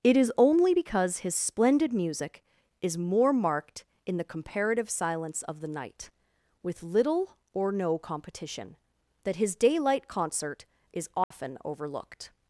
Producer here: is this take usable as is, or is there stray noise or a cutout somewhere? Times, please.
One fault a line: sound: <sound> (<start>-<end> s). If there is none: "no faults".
sound: dropout (11.2-11.3 s)